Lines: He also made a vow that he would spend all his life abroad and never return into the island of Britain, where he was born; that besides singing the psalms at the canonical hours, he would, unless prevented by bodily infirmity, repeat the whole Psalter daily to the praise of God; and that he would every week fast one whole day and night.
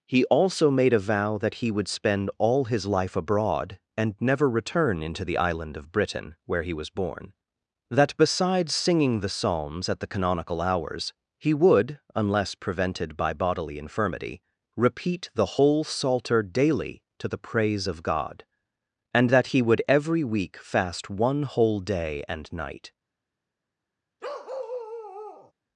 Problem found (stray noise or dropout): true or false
true